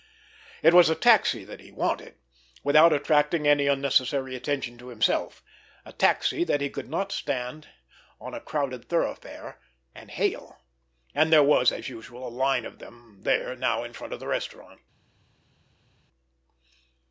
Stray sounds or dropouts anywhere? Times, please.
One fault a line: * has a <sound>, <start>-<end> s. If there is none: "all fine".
all fine